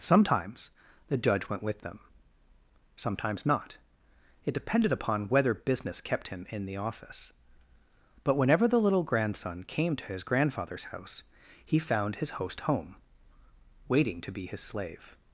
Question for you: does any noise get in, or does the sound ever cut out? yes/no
no